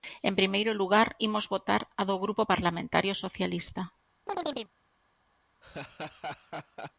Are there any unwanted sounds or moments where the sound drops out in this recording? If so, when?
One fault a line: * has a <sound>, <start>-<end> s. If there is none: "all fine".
* has a chirp, 4.3-4.7 s
* has a laugh, 5.6-6.9 s